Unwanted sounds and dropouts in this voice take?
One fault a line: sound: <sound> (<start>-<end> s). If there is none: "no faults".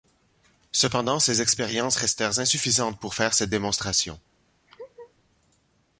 sound: laugh (4.7-5.1 s)